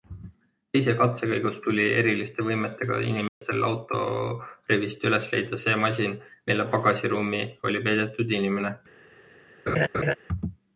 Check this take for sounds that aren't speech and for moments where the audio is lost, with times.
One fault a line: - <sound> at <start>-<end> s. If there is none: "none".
- dropout at 3.3-3.4 s
- laugh at 9.7-10.1 s